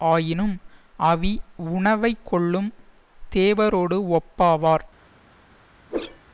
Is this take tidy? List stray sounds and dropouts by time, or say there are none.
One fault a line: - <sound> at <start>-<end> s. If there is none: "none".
- whoosh at 5.9-6.2 s